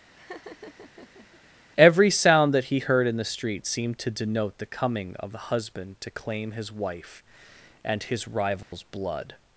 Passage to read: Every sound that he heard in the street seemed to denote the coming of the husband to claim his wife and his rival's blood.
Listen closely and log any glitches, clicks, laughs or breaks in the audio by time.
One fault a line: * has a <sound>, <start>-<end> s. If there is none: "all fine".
* has a laugh, 0.1-1.4 s
* has a dropout, 8.6-8.7 s